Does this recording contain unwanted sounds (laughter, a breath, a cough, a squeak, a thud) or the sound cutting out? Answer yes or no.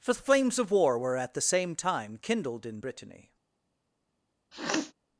yes